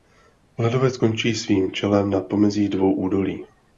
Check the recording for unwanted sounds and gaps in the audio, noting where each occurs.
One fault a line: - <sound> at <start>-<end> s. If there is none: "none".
none